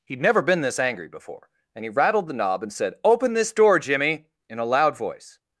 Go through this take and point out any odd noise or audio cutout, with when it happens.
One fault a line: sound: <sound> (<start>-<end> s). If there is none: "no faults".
no faults